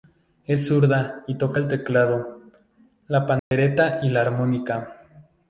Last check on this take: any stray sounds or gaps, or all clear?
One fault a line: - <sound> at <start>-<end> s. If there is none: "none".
- dropout at 3.4-3.5 s